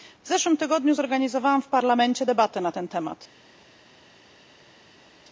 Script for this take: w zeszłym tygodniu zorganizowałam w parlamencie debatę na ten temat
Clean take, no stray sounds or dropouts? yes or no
yes